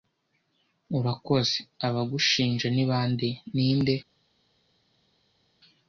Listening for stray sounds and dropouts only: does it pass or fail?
pass